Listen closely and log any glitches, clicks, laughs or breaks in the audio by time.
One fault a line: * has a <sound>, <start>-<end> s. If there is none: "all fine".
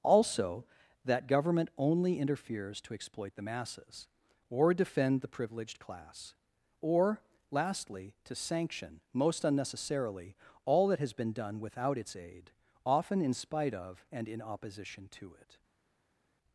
all fine